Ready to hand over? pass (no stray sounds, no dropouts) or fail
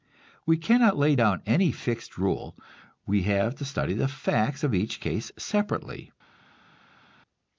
pass